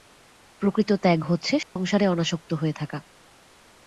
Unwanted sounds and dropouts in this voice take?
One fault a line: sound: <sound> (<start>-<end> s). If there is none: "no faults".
sound: dropout (1.6-1.8 s)